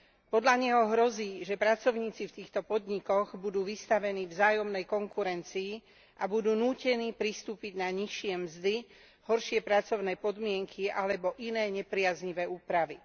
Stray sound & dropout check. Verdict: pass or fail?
pass